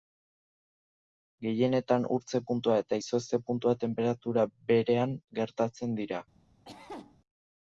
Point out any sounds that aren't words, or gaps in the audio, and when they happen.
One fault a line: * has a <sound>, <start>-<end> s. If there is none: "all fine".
* has a cough, 6.6-7.2 s